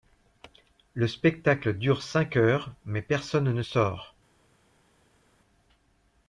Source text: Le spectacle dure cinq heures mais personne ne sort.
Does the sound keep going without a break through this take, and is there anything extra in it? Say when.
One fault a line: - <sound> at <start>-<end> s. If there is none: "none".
none